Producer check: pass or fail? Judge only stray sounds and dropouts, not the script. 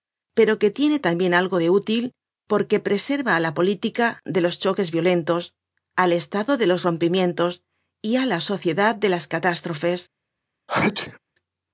fail